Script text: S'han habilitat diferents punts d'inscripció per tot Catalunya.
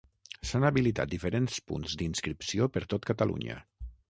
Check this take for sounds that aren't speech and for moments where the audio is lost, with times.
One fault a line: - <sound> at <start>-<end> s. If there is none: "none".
none